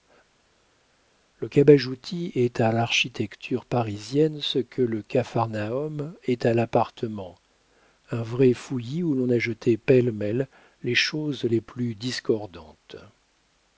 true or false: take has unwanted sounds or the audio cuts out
false